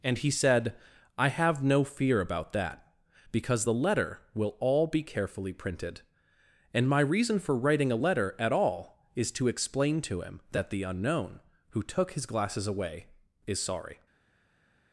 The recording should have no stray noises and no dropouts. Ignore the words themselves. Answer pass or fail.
pass